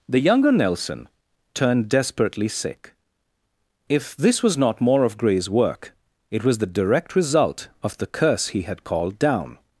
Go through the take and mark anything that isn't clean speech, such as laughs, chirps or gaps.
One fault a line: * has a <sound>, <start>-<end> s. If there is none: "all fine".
all fine